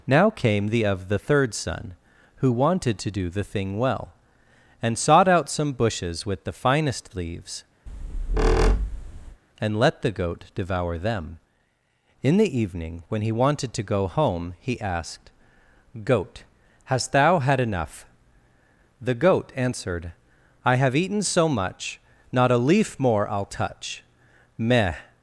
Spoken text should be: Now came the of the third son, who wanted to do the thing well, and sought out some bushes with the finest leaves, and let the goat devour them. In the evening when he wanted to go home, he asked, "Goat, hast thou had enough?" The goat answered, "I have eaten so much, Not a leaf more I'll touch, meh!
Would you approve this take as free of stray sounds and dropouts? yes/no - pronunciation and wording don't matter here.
no